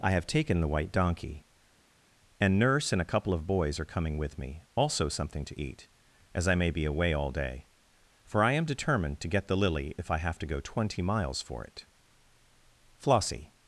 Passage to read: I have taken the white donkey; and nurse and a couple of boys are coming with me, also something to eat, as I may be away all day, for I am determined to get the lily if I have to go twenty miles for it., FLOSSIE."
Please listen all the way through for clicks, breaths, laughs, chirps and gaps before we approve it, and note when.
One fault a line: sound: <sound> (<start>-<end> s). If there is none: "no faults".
no faults